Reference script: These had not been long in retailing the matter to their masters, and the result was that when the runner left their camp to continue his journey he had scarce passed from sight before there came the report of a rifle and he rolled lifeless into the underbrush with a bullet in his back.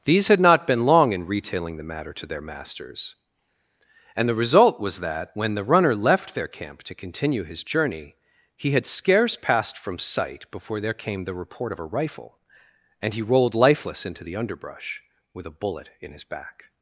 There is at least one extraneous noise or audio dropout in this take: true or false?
false